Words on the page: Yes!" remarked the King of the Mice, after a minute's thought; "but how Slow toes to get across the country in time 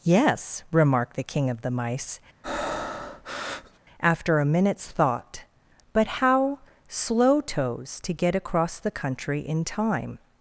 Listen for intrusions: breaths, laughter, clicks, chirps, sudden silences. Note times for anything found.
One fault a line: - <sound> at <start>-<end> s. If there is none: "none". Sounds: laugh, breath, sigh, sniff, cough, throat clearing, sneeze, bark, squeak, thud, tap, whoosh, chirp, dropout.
- breath at 2.4-3.8 s